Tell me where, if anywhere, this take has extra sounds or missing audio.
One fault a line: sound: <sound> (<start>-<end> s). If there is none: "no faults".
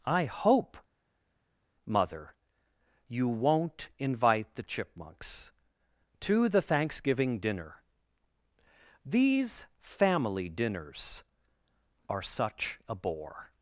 no faults